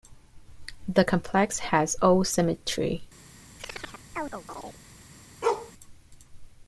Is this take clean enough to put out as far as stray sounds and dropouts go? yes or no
no